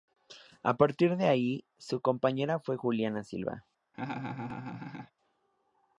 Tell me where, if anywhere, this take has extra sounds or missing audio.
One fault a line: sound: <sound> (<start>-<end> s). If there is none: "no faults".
sound: laugh (3.9-5.1 s)